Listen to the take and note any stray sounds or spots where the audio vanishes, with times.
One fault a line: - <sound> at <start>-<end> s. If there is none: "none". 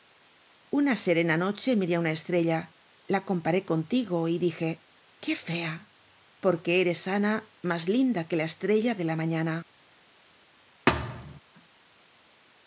- thud at 10.9-11.4 s